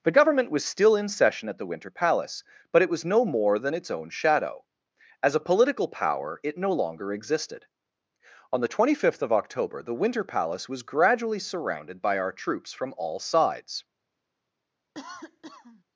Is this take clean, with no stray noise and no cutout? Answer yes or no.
no